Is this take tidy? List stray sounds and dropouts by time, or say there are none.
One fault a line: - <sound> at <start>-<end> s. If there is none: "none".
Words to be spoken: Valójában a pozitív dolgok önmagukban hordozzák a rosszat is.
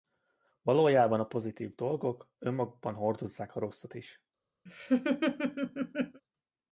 - laugh at 4.7-6.2 s